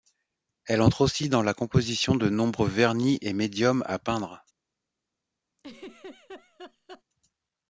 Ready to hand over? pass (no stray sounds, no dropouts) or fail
fail